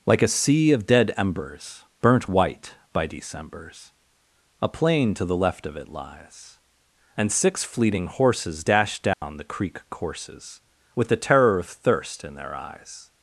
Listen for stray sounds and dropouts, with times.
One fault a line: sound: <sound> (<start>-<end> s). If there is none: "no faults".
sound: dropout (9.1-9.2 s)